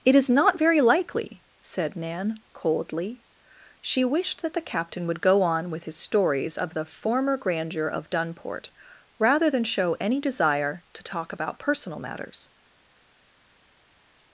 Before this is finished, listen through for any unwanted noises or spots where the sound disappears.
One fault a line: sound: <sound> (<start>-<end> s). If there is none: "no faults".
no faults